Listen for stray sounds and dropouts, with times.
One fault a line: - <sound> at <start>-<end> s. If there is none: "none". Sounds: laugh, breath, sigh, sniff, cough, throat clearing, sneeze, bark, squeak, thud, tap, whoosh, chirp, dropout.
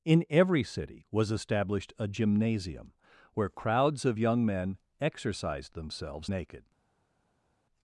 none